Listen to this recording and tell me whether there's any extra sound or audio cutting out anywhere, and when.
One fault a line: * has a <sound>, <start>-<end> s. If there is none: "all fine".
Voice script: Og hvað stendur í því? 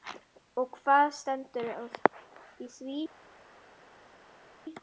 all fine